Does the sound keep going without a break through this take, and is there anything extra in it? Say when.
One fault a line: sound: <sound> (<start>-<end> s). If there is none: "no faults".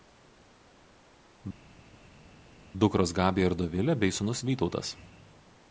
no faults